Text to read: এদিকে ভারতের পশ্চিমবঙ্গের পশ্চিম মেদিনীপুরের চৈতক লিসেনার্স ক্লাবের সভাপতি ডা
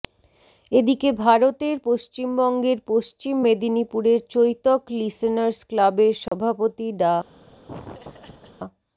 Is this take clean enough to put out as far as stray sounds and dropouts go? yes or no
no